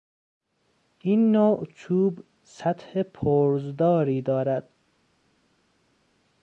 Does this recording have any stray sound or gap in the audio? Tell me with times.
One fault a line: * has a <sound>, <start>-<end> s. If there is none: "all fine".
all fine